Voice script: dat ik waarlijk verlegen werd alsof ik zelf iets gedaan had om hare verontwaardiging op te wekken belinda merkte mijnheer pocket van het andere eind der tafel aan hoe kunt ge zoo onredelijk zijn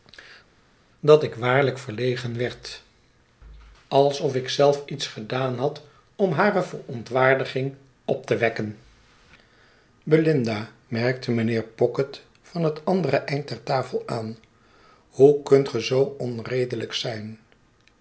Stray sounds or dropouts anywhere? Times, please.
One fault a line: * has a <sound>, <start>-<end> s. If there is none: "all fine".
all fine